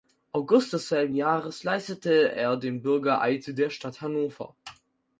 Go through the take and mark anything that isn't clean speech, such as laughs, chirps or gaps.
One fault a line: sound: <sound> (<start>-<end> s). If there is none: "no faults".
no faults